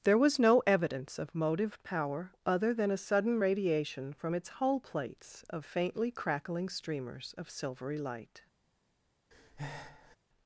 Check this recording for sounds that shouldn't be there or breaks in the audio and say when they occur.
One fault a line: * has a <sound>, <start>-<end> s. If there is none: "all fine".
* has a breath, 9.3-10.2 s